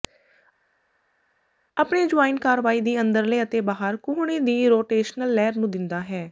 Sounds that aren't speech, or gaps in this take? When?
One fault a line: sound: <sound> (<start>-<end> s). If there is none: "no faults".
no faults